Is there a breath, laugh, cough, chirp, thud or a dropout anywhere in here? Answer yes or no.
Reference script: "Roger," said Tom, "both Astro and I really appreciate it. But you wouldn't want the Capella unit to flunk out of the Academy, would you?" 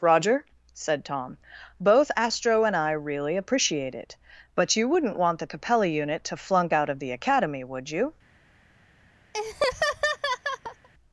yes